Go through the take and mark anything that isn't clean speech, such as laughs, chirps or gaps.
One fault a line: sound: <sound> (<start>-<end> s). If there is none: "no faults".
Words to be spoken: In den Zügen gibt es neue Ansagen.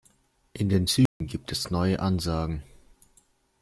sound: dropout (1.1-1.2 s)